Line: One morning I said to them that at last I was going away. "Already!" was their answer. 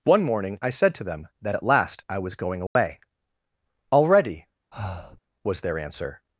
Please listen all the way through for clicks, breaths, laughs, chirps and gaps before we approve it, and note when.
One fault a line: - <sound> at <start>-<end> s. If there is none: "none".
- dropout at 2.7-2.8 s
- breath at 4.7-5.2 s